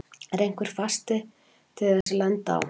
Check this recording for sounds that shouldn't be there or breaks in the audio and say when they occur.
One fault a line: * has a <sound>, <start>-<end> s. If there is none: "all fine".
* has a dropout, 2.0-2.1 s